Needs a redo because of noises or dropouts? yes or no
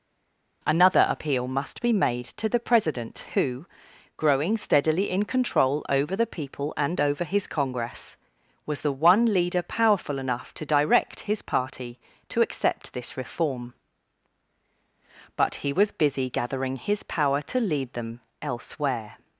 no